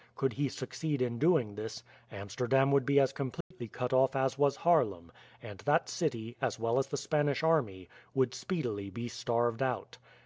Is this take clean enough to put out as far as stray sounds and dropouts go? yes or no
no